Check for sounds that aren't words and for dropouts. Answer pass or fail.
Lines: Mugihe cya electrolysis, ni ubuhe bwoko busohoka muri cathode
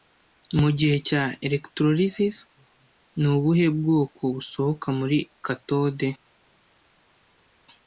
pass